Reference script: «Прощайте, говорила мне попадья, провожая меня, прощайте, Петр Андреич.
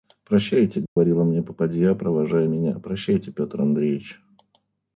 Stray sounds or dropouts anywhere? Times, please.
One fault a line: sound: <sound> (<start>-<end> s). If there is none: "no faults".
sound: dropout (0.9-1.0 s)